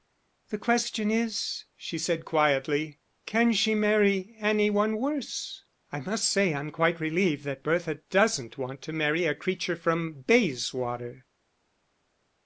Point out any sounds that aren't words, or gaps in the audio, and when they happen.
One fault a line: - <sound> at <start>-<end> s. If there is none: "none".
none